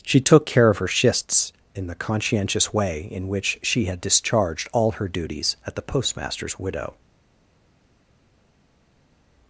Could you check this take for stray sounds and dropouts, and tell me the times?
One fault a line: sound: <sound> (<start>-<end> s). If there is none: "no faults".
no faults